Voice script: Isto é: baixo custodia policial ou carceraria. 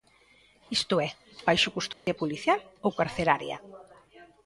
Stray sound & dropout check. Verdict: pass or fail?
fail